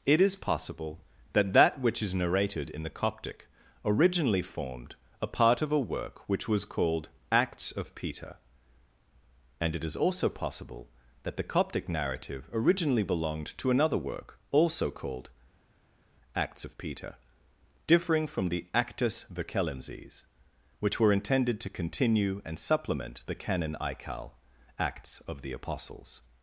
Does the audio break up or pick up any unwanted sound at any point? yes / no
no